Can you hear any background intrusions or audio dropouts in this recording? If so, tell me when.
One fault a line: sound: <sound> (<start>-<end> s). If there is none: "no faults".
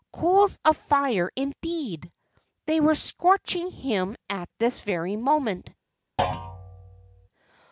sound: thud (6.2-7.3 s)